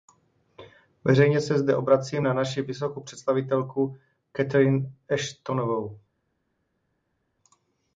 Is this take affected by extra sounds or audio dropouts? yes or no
no